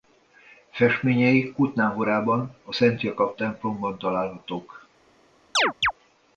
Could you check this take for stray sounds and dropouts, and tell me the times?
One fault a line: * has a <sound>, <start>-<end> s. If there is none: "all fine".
* has a chirp, 5.5-5.9 s